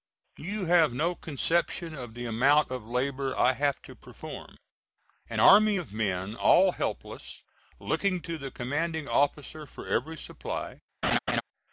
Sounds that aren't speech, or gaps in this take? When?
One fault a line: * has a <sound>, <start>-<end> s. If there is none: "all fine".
* has a laugh, 11.0-11.4 s